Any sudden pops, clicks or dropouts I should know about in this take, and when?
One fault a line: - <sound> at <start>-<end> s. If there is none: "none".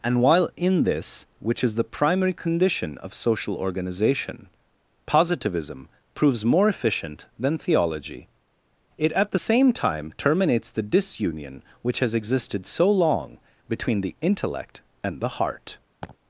- laugh at 16.0-16.2 s